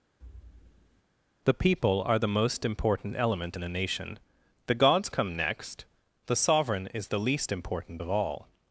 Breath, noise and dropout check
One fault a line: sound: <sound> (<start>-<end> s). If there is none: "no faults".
sound: thud (0.2-1.0 s)